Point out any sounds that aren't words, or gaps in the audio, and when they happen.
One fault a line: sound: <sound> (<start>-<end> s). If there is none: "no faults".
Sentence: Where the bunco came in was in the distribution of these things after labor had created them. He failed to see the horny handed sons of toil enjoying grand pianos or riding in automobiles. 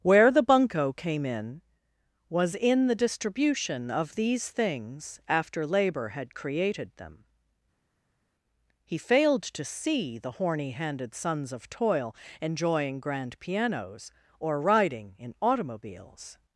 no faults